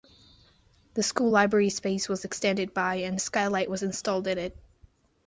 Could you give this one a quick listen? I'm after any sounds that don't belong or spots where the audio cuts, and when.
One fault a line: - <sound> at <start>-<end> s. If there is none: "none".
none